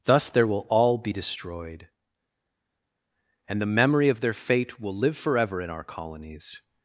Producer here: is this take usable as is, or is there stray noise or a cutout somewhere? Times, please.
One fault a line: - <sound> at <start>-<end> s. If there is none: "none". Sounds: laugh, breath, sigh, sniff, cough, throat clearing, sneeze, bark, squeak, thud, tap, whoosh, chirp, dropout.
none